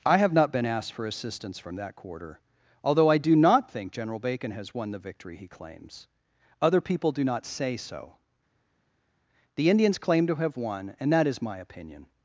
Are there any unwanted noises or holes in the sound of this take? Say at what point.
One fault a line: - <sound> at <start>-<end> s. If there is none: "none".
none